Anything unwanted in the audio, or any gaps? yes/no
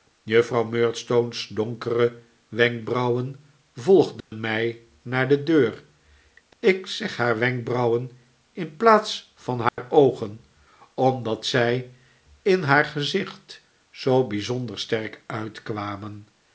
yes